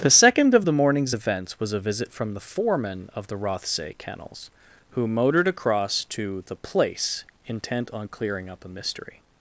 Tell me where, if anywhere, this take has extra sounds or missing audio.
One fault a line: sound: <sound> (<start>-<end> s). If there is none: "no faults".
no faults